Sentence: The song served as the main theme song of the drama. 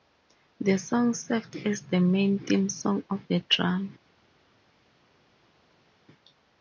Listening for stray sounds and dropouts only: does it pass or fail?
pass